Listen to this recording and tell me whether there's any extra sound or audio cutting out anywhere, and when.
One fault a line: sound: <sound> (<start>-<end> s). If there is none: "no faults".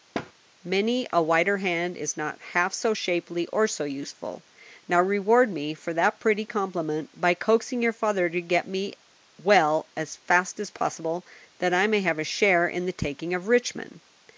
sound: thud (0.1-0.3 s)